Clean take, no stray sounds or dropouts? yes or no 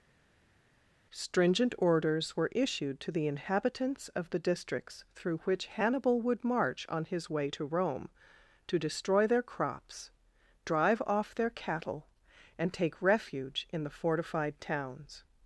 yes